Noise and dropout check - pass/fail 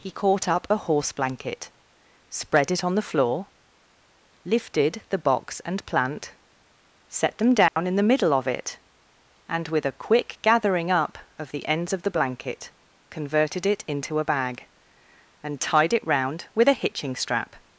fail